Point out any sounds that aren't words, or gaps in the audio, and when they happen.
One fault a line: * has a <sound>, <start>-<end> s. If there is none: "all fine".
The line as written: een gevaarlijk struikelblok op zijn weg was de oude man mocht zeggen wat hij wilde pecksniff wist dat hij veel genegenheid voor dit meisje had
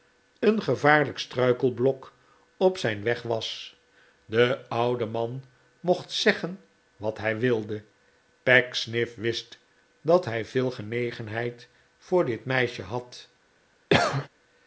* has a cough, 13.9-14.3 s